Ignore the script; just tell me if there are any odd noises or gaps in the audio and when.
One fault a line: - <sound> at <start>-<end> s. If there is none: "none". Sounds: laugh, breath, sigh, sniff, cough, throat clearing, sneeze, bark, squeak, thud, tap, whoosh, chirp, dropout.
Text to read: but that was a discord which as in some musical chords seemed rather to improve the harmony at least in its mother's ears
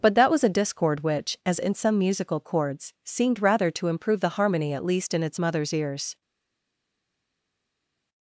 none